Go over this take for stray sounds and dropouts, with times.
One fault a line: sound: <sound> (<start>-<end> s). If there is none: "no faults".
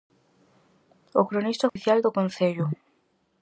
sound: dropout (1.7-1.8 s)